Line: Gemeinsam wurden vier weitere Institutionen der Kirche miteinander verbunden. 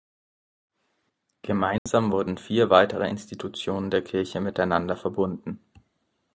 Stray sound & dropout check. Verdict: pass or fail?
fail